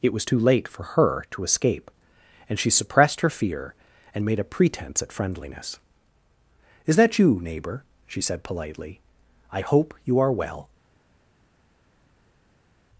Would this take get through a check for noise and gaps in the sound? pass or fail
pass